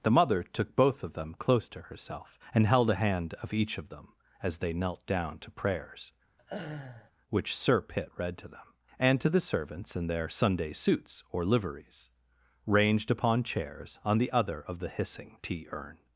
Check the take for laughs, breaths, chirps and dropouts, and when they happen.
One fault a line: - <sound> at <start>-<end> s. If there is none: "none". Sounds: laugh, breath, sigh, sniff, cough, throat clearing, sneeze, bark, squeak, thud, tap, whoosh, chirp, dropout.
- laugh at 6.4-7.1 s